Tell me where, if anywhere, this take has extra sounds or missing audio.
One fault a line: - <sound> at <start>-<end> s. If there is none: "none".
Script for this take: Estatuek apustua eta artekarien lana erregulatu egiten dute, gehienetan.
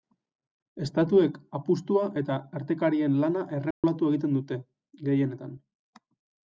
- dropout at 3.7-3.8 s